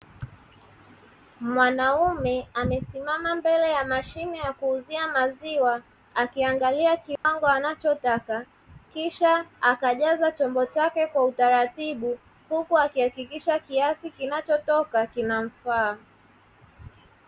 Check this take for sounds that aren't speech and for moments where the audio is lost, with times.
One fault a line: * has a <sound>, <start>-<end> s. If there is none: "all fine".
* has a dropout, 7.2-7.2 s